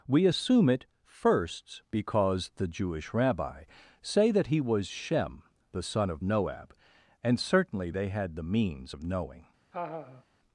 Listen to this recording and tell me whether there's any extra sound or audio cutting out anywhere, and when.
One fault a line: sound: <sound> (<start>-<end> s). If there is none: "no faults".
sound: laugh (9.7-10.2 s)